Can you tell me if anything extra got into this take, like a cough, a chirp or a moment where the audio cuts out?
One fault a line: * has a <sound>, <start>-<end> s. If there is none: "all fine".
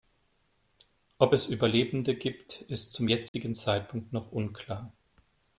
* has a dropout, 3.3-3.3 s